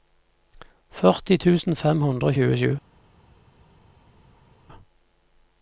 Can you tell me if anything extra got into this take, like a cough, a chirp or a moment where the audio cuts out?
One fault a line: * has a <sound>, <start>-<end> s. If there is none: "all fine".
all fine